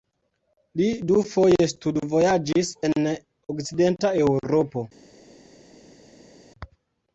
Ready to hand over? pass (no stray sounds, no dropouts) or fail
pass